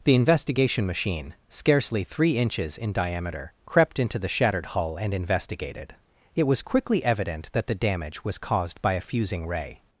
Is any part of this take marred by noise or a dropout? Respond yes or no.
no